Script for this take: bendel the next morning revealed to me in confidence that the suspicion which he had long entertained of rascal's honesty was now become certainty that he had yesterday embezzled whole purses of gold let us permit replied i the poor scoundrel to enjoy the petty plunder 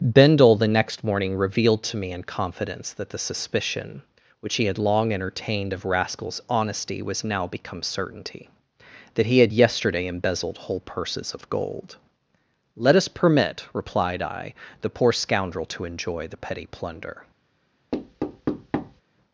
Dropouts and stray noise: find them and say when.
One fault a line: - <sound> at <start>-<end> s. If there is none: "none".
- thud at 17.9-19.0 s